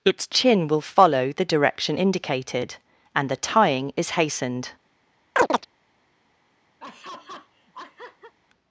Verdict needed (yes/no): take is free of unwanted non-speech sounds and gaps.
no